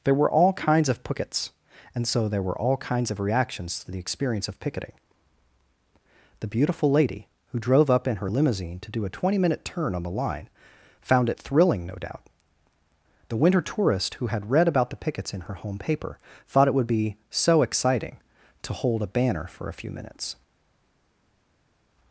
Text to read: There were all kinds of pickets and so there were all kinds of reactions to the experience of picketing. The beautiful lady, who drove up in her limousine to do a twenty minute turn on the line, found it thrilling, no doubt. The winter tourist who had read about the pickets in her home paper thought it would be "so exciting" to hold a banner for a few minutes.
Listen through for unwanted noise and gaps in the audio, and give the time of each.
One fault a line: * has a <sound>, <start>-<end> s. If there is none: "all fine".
all fine